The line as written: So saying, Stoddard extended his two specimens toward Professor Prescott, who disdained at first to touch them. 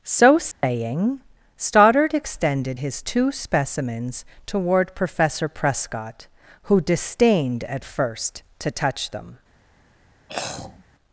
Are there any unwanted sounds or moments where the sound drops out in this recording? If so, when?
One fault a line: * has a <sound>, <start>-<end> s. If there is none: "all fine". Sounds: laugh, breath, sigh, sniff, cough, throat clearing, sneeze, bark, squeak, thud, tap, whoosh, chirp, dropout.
* has a dropout, 0.5-0.6 s
* has a throat clearing, 10.3-10.8 s